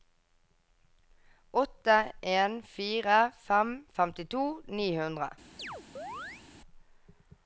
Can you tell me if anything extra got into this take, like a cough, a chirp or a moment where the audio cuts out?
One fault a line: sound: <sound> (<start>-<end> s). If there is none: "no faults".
sound: chirp (5.6-6.4 s)